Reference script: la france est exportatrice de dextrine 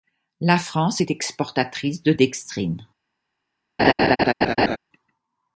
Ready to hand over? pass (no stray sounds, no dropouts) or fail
fail